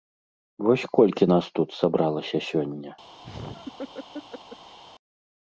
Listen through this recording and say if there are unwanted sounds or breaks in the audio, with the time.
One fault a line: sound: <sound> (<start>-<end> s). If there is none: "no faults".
sound: laugh (3.2-4.8 s)